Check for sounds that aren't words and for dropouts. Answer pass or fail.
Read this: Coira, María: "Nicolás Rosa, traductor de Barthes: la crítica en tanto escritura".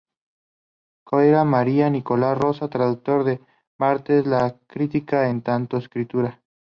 pass